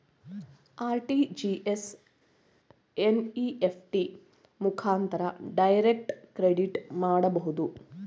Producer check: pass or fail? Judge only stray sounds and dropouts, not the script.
pass